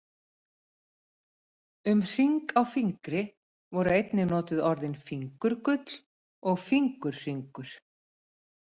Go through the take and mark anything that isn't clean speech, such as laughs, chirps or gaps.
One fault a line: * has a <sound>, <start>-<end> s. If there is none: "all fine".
all fine